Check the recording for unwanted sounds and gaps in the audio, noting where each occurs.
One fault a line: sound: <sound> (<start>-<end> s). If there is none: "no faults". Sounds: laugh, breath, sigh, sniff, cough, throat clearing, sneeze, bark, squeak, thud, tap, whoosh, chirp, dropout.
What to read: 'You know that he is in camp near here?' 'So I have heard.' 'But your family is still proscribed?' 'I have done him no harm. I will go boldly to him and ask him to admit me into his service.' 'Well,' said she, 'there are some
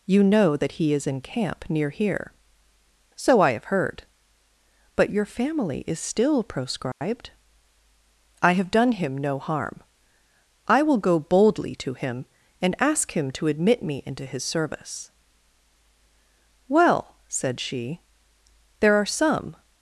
sound: dropout (6.9-7.0 s)